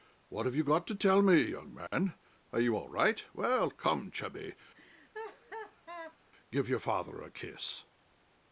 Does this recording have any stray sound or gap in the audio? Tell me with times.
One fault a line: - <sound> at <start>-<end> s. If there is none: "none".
- dropout at 1.9-1.9 s
- laugh at 4.7-6.2 s